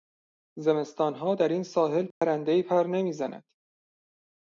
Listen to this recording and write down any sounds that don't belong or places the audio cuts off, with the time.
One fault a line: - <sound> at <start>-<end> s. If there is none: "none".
- dropout at 2.1-2.2 s